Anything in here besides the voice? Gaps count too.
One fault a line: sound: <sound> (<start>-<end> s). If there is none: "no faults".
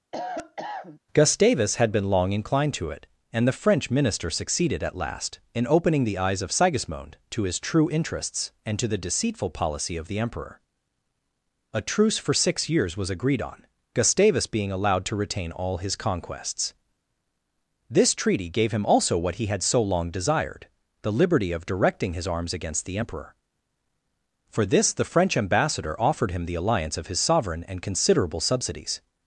sound: cough (0.1-1.0 s)